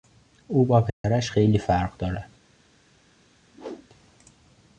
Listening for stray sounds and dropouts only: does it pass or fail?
fail